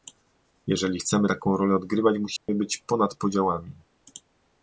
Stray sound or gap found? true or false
true